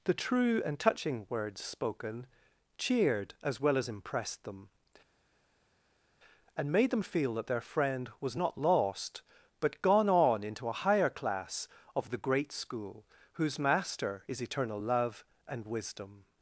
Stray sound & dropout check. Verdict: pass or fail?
pass